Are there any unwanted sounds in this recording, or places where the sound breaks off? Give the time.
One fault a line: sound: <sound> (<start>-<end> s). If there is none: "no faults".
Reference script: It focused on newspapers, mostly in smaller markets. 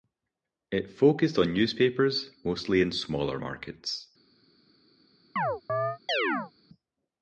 sound: chirp (5.4-6.5 s)